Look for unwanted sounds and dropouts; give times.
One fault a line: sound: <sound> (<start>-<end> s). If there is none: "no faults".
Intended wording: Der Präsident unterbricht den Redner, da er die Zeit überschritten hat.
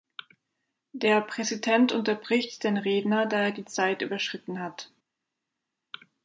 no faults